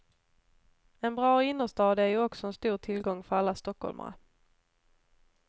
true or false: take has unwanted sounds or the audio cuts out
false